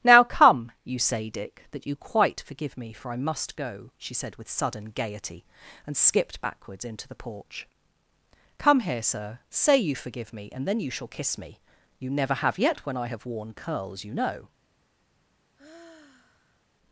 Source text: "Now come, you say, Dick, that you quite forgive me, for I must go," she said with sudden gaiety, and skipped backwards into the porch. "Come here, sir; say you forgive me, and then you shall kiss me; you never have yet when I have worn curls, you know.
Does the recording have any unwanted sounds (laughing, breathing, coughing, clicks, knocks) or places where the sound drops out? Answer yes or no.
yes